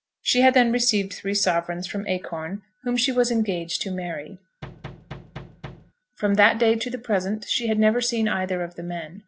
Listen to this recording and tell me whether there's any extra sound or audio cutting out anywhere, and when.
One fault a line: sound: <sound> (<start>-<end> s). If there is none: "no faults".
sound: thud (4.6-5.9 s)